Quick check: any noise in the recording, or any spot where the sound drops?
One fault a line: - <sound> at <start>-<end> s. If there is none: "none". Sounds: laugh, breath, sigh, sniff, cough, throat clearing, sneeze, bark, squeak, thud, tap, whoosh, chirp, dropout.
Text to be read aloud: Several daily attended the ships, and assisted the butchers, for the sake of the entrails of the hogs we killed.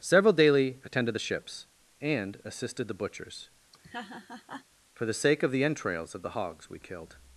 - laugh at 3.7-4.7 s